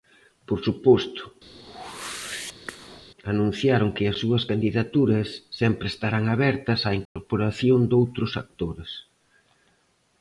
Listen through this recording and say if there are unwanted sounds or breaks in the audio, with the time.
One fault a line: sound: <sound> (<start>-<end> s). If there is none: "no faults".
sound: whoosh (1.5-3.1 s)
sound: dropout (7.1-7.2 s)